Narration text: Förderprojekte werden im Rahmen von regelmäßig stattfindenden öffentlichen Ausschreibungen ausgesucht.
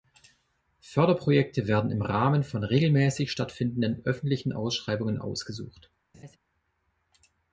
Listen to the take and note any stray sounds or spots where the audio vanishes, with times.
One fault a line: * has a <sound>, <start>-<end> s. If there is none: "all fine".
* has a laugh, 6.1-6.4 s